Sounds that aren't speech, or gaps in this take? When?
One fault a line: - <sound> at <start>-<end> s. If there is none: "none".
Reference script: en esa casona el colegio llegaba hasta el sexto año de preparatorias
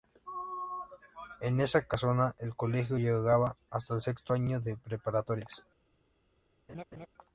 - laugh at 6.7-7.1 s